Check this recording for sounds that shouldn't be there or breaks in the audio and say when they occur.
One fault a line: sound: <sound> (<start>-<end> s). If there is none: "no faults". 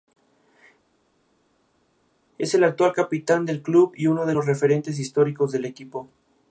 no faults